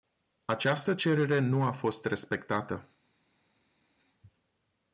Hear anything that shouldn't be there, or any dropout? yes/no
no